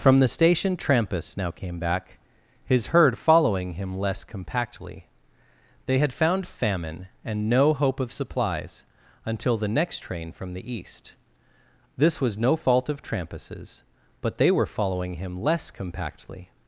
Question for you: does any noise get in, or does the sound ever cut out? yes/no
no